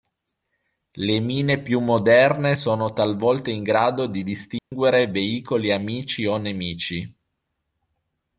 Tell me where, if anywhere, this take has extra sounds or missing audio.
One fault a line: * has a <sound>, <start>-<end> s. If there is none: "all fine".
* has a dropout, 4.6-4.7 s